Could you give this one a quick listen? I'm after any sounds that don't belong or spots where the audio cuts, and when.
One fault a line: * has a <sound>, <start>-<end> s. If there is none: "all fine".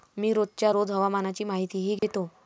* has a dropout, 2.0-2.0 s